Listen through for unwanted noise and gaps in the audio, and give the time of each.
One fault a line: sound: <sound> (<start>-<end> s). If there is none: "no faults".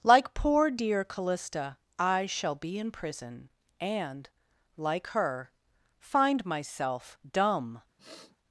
sound: sniff (8.0-8.4 s)